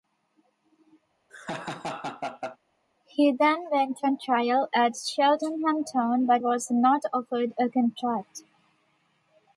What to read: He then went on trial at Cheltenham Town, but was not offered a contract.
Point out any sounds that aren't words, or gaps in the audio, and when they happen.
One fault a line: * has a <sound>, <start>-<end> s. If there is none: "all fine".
* has a laugh, 1.3-2.6 s